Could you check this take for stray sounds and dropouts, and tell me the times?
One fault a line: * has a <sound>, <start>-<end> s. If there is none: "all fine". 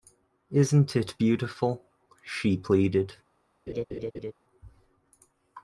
* has a laugh, 3.7-4.3 s